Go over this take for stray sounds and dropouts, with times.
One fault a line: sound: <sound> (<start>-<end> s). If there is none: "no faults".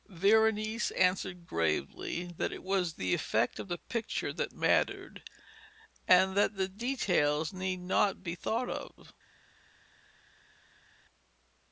no faults